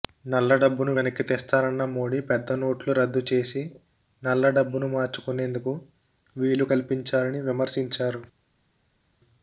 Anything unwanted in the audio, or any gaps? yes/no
no